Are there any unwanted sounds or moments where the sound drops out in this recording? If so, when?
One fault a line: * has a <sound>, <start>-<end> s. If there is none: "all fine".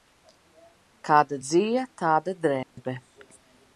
* has a dropout, 2.6-2.8 s